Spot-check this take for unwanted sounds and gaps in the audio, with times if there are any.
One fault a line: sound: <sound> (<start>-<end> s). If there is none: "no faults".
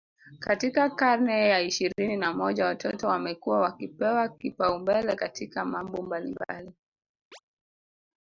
sound: chirp (7.3-7.4 s)